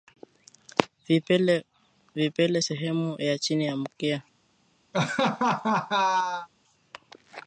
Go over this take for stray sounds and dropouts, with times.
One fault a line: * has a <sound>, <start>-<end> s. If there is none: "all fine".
* has a laugh, 4.9-6.5 s